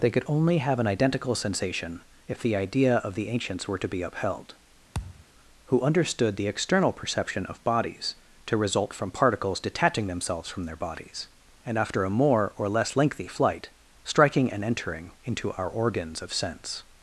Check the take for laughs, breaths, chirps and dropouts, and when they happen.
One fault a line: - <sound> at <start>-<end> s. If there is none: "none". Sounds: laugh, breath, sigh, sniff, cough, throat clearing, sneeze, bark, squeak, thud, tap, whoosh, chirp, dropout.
- thud at 4.9-5.3 s